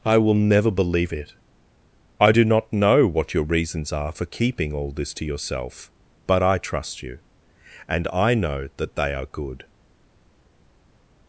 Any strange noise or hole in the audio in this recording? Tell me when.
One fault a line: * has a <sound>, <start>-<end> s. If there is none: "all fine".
all fine